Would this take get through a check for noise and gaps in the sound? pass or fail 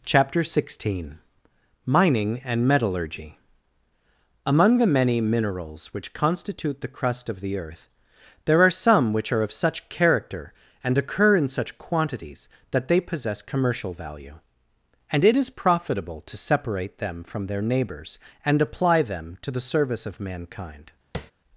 fail